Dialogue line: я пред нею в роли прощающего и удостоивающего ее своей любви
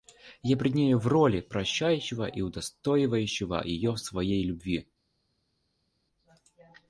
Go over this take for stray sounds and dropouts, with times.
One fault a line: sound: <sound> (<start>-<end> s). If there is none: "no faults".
no faults